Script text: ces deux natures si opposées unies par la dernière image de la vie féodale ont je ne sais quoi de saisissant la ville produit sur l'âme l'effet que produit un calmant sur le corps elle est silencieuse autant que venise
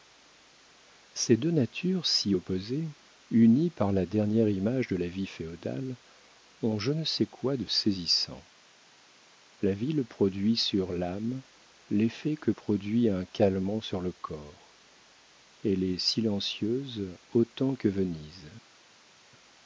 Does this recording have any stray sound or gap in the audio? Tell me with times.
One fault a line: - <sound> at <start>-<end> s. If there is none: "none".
none